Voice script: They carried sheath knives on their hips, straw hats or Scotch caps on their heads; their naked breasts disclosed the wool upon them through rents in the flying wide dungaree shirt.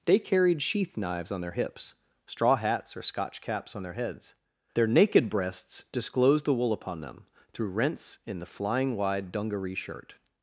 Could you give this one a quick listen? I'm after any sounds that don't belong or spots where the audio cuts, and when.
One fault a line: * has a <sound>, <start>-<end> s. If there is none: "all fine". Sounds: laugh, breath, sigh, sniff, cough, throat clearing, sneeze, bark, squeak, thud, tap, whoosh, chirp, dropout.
all fine